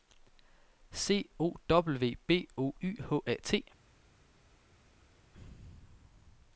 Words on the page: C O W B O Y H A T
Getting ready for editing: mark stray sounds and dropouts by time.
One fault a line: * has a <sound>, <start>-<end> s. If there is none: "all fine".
all fine